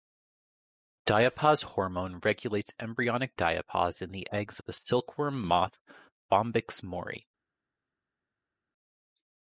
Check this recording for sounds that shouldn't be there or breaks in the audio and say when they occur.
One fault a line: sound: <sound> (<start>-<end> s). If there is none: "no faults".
no faults